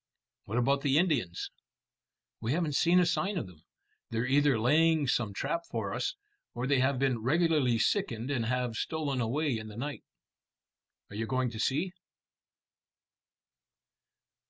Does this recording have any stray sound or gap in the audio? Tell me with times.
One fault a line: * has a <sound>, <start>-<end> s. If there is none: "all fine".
all fine